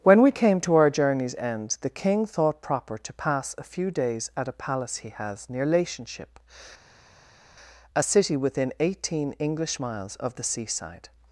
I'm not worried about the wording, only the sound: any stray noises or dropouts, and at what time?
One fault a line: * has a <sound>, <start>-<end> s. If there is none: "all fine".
all fine